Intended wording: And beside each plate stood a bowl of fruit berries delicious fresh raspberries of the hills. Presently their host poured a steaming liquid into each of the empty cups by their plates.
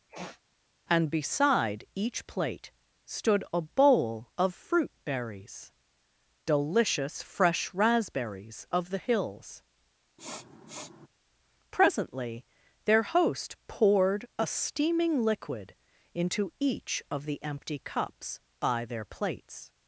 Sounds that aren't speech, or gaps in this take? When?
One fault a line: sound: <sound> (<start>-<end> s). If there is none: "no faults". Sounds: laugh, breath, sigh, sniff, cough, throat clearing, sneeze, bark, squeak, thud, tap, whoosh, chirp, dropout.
sound: sniff (0.1-0.4 s)
sound: sniff (10.2-11.1 s)